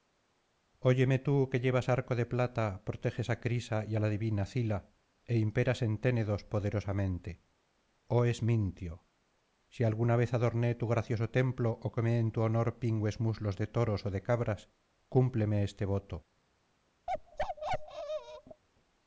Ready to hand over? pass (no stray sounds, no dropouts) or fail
fail